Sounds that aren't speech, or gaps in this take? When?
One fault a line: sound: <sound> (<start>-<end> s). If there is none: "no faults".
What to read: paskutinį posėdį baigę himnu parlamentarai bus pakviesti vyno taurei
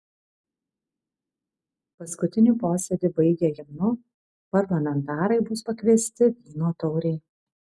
no faults